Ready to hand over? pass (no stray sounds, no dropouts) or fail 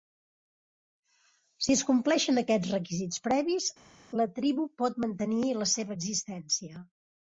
pass